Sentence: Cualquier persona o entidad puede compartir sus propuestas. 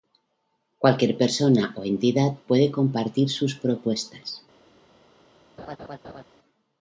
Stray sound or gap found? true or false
true